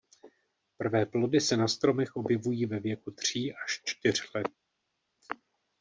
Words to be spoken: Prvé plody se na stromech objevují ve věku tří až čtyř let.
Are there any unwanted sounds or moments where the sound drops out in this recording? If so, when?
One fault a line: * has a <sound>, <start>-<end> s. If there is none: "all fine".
all fine